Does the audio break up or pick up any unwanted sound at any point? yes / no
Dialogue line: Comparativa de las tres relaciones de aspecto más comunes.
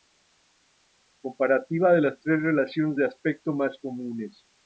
no